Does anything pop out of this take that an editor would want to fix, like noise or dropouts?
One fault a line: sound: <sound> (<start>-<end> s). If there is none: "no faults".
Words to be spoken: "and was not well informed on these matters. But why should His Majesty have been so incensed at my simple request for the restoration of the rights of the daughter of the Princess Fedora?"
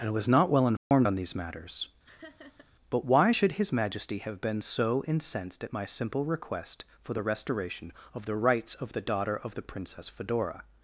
sound: dropout (0.8-0.9 s)
sound: laugh (2.0-2.7 s)